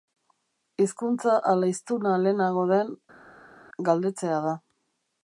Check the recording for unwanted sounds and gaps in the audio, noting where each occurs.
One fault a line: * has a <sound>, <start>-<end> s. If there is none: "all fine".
all fine